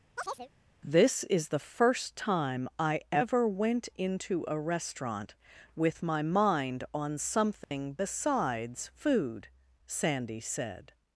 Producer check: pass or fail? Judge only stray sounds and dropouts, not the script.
fail